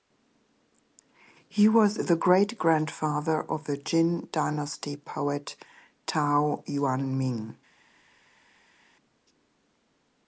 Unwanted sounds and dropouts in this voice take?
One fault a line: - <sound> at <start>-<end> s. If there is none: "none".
none